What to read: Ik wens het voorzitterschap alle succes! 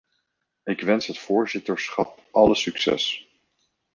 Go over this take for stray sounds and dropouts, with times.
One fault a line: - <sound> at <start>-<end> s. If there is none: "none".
none